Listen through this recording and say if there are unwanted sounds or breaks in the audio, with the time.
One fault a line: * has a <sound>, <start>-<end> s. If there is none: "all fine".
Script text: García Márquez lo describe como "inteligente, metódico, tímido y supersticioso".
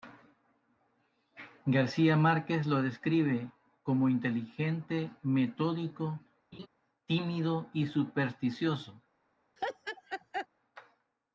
* has a laugh, 6.5-6.7 s
* has a laugh, 9.6-10.5 s